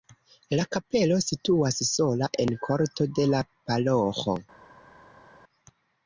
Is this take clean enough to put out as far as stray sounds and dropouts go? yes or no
yes